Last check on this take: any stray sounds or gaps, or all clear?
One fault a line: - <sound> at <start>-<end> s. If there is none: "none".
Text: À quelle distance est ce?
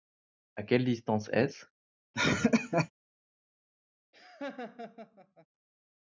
- laugh at 2.1-2.9 s
- laugh at 4.1-5.5 s